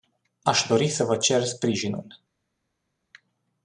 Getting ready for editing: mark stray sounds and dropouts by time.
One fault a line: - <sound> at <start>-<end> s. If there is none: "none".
none